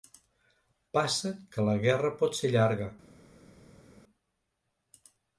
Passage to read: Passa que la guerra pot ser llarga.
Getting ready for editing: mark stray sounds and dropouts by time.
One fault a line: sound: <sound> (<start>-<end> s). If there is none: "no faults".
no faults